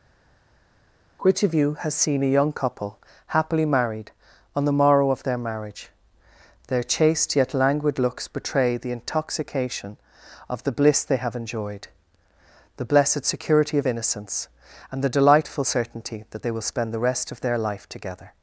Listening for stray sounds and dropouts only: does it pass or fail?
pass